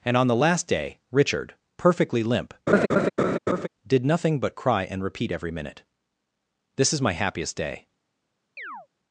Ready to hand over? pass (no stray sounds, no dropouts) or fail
fail